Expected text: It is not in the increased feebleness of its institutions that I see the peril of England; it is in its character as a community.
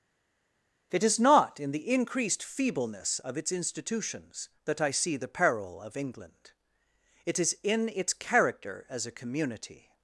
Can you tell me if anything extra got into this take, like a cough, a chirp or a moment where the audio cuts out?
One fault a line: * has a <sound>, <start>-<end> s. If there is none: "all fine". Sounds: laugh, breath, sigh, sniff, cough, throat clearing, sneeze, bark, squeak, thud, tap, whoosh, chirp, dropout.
all fine